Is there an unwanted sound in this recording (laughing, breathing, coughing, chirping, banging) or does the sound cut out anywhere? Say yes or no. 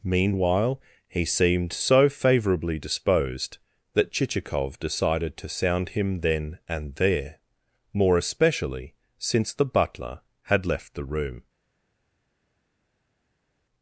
no